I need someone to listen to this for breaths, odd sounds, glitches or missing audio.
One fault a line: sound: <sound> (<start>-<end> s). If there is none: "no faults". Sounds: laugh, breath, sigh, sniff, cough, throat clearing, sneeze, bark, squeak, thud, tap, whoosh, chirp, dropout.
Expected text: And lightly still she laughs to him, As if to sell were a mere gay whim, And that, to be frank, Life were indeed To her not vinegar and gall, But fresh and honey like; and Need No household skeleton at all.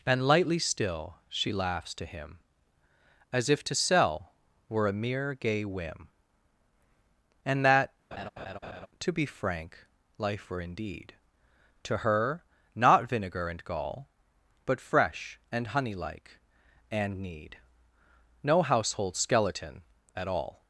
sound: laugh (8.1-8.9 s)